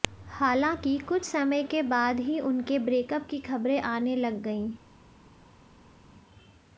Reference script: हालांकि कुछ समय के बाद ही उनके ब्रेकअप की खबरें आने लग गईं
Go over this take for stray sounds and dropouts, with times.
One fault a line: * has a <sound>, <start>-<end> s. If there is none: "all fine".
all fine